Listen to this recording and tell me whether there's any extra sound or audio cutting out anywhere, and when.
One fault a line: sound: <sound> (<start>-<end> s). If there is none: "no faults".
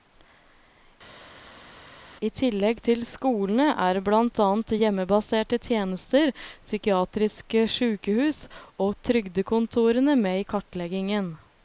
no faults